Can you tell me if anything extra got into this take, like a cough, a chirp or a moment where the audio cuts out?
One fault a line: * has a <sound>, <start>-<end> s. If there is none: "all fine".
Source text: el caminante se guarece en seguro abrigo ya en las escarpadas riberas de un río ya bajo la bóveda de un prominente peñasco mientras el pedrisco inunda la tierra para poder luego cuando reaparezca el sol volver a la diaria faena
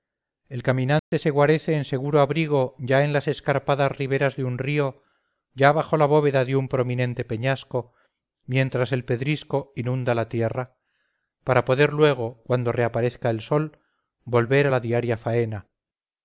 * has a dropout, 1.0-1.1 s